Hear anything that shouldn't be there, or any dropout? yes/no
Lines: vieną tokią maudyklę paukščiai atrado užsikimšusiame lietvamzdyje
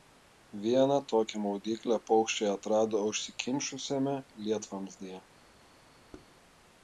yes